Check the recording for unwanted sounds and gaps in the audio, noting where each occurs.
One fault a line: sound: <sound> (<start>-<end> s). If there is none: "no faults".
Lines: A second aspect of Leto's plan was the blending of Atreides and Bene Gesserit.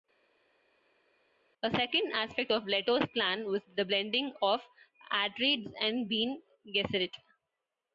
no faults